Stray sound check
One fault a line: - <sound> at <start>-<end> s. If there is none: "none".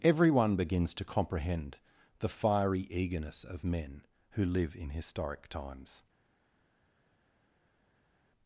none